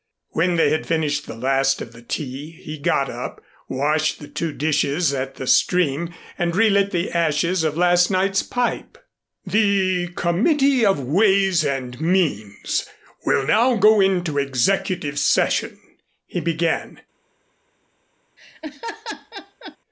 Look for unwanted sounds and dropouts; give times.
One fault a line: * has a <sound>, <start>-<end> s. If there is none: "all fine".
* has a laugh, 18.4-19.8 s